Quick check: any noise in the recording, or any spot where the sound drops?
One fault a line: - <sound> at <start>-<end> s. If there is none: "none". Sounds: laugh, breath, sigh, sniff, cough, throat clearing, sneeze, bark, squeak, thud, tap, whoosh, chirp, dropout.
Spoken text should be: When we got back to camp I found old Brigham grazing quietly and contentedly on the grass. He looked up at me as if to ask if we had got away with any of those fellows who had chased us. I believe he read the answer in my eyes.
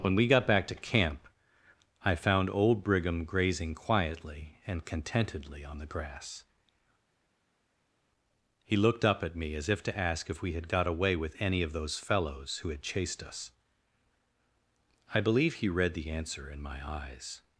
none